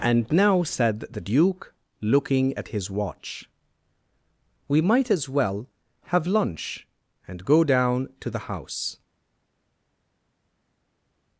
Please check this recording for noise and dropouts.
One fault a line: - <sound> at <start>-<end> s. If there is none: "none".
none